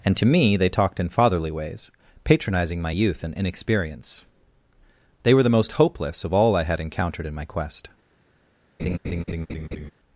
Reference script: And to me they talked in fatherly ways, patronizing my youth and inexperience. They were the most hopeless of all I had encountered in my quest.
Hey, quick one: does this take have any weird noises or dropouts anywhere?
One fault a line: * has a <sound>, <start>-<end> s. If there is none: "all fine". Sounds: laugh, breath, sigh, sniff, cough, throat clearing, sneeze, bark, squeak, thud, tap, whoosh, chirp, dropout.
* has a laugh, 8.8-9.9 s